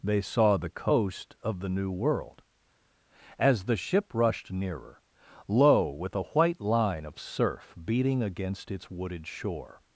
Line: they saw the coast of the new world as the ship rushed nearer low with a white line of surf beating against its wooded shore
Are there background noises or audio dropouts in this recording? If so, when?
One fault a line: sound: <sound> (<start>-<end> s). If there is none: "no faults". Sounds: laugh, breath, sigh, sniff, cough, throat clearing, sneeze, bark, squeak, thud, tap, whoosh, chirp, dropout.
no faults